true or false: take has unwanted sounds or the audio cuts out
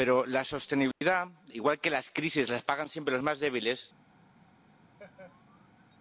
true